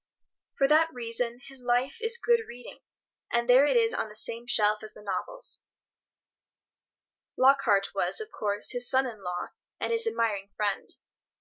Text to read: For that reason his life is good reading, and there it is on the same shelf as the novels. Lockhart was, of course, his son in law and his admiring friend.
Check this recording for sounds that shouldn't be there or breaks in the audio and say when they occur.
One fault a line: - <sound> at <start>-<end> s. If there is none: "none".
none